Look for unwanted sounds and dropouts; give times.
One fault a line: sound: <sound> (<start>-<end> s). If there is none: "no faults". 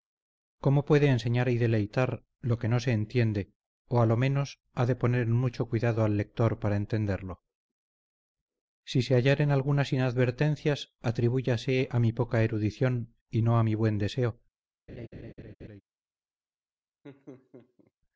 sound: laugh (14.9-15.8 s)
sound: laugh (17.0-17.9 s)